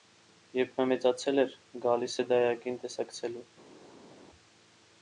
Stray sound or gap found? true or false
false